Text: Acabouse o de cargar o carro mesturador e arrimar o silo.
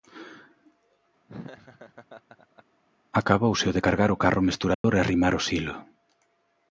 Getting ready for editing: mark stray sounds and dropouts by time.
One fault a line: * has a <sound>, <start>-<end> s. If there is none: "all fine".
* has a laugh, 1.3-2.6 s
* has a dropout, 4.7-4.8 s